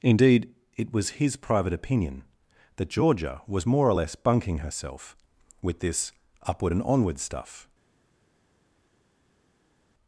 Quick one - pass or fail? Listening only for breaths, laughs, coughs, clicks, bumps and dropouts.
pass